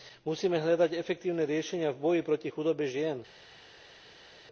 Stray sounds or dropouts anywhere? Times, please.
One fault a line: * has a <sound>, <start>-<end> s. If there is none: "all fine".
all fine